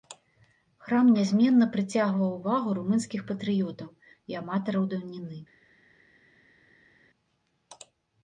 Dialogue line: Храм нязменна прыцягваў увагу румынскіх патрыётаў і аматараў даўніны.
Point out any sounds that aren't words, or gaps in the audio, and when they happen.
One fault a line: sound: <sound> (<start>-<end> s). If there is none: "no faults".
no faults